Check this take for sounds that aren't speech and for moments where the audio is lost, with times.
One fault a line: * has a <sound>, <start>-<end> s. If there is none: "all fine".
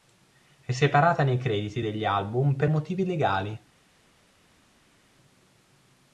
all fine